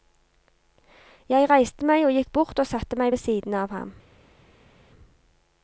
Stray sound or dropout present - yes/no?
no